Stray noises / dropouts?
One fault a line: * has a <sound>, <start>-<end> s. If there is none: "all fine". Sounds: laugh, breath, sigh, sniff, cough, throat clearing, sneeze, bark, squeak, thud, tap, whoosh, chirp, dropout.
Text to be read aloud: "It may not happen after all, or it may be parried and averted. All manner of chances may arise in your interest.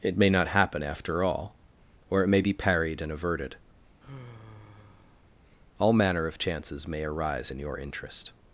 * has a sigh, 4.0-5.3 s